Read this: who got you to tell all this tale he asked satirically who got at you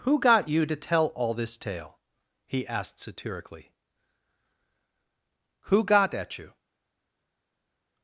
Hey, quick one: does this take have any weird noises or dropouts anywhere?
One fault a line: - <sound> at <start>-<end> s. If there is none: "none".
none